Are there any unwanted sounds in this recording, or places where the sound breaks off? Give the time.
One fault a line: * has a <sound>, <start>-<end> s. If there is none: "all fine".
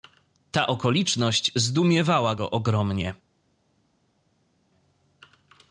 all fine